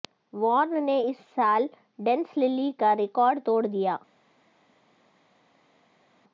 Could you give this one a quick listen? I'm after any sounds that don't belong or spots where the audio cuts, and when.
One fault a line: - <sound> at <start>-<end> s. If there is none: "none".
none